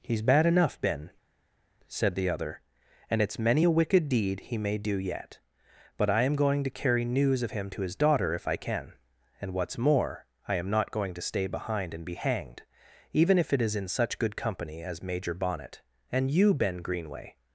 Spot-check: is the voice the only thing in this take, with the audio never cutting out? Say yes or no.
yes